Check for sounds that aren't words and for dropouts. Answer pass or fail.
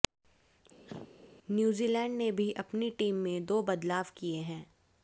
fail